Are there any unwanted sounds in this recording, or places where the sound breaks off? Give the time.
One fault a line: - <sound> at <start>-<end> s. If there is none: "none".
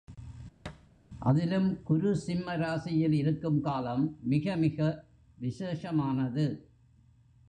- thud at 0.6-0.9 s